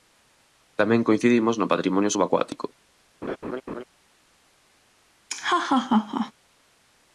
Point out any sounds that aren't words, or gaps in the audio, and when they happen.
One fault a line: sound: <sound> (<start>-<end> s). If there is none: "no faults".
sound: laugh (3.2-3.8 s)
sound: laugh (5.3-6.3 s)